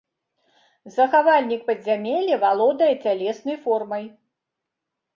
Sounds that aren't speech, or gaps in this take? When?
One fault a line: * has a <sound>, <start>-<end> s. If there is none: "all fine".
all fine